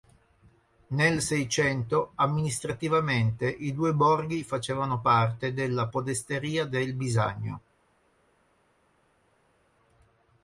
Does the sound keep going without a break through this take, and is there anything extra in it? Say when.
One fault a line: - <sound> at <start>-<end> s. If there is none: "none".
none